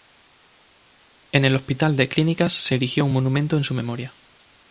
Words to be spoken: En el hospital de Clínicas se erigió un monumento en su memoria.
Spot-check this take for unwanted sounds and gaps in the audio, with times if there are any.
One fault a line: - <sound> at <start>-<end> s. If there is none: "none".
none